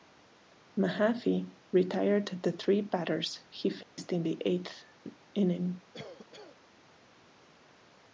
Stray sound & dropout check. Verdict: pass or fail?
fail